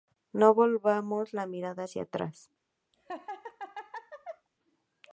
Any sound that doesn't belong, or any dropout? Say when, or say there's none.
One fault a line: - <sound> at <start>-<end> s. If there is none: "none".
- laugh at 2.9-4.5 s